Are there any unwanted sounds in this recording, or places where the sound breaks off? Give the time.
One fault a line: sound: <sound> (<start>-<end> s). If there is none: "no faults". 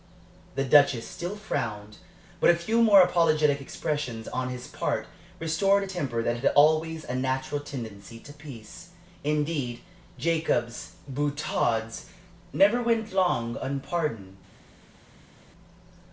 no faults